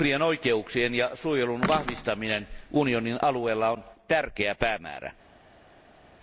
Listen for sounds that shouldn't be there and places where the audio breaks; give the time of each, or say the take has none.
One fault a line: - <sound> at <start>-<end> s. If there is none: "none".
none